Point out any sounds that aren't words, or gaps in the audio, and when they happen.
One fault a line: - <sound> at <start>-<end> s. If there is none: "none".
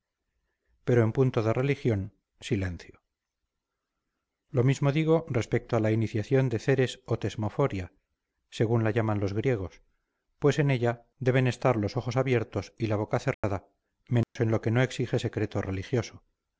- dropout at 13.3-13.4 s
- dropout at 14.2-14.4 s